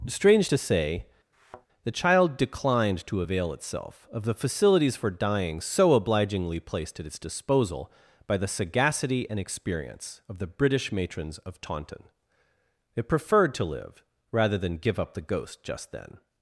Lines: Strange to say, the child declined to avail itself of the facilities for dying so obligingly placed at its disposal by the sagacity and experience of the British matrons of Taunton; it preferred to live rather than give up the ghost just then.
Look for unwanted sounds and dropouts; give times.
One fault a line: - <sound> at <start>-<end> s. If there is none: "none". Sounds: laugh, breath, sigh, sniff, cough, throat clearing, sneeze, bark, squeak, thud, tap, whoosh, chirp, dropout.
- thud at 1.3-1.7 s